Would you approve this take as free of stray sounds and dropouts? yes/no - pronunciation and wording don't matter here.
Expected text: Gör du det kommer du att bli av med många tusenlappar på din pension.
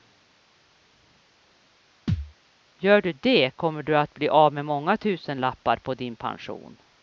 no